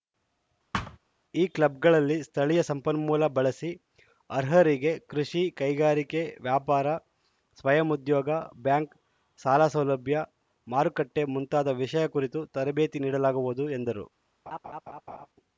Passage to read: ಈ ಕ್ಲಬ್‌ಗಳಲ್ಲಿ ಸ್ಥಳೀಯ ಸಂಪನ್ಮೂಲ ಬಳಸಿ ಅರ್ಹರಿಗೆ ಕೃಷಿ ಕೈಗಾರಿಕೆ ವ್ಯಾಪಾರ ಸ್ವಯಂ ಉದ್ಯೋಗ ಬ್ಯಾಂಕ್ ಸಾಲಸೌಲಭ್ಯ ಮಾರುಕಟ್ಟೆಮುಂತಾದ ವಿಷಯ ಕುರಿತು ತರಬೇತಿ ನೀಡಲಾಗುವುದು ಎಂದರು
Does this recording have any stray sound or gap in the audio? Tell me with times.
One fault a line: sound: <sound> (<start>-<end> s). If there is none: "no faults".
sound: thud (0.7-1.0 s)
sound: laugh (14.5-15.3 s)